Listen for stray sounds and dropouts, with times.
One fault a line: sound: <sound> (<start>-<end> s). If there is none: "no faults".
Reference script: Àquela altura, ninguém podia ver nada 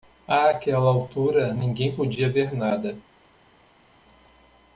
no faults